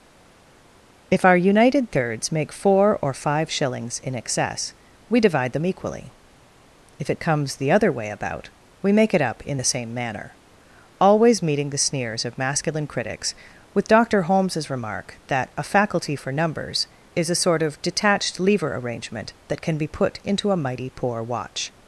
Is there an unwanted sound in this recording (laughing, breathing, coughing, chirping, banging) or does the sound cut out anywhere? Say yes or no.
no